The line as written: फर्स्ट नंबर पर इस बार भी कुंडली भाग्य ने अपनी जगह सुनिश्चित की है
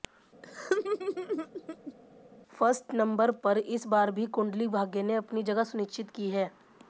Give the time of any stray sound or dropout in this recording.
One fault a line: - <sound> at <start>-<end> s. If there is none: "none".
- laugh at 0.4-1.9 s